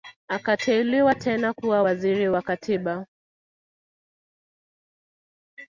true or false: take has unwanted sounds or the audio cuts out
false